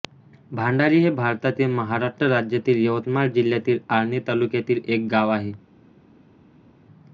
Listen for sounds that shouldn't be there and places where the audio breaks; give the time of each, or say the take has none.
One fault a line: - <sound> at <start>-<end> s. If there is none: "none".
none